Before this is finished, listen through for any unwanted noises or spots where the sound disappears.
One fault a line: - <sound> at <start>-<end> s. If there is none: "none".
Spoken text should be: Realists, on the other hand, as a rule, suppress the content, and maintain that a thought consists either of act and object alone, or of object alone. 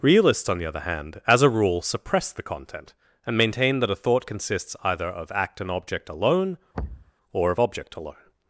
- thud at 6.7-7.1 s